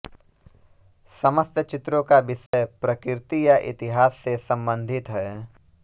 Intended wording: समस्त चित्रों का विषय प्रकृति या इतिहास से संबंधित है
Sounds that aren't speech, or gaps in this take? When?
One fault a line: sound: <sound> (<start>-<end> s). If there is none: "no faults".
sound: dropout (2.5-2.5 s)